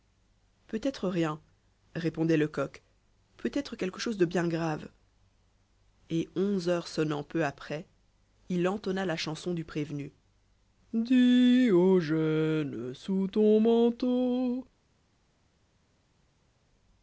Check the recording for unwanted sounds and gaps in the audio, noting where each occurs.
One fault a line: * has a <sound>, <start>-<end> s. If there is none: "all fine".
all fine